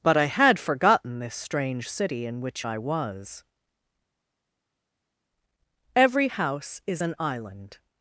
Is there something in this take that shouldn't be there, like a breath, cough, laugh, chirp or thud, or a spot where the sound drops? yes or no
no